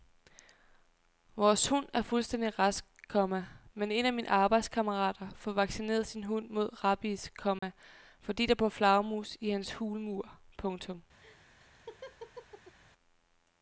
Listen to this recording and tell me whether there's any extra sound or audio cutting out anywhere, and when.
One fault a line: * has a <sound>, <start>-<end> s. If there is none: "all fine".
* has a dropout, 7.6-7.6 s
* has a laugh, 11.2-12.8 s